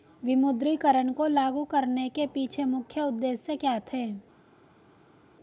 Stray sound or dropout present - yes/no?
no